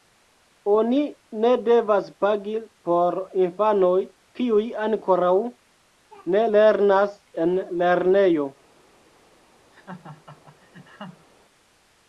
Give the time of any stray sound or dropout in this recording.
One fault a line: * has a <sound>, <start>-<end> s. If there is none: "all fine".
* has a laugh, 9.7-11.3 s